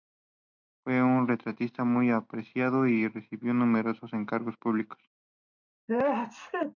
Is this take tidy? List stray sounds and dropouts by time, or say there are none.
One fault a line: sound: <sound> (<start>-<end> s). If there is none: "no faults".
sound: sneeze (5.9-6.7 s)